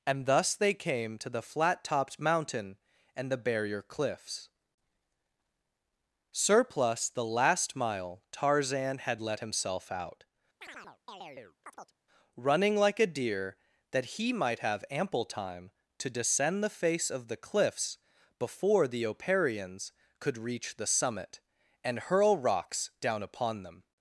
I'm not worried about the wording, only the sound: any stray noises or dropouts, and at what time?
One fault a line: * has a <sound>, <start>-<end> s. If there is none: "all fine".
* has a chirp, 10.6-12.0 s